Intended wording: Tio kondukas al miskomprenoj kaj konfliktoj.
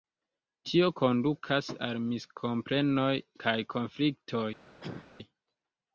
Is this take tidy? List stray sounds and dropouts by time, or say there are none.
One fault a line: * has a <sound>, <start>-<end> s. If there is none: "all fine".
* has a cough, 4.8-5.1 s